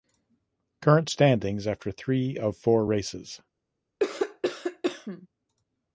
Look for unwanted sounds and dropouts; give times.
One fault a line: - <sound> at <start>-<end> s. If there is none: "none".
- cough at 4.0-5.3 s